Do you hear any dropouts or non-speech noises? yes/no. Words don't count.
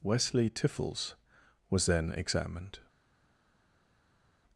no